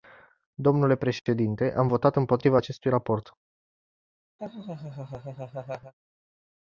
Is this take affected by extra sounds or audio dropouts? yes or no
yes